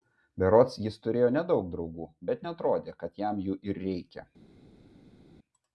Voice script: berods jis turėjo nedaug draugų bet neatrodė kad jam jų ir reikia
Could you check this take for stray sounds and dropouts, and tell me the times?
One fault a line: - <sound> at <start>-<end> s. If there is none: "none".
none